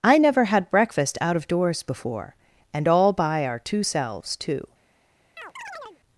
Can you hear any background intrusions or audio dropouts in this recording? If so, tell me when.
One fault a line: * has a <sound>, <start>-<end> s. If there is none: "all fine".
* has a chirp, 5.4-6.0 s